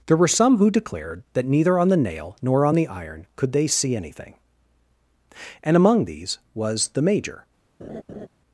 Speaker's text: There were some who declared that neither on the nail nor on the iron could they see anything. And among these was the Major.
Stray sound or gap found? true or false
true